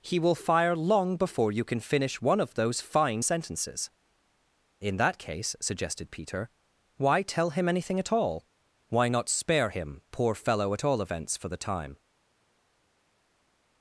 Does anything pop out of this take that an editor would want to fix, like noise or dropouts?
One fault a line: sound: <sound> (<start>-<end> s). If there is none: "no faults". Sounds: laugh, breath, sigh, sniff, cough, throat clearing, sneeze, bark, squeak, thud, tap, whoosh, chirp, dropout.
no faults